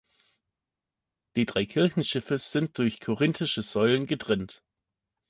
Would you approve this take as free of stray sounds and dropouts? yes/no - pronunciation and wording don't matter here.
yes